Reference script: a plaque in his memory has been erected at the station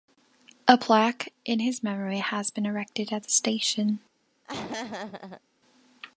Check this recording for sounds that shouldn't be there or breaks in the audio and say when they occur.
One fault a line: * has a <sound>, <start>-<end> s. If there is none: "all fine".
* has a laugh, 4.4-5.4 s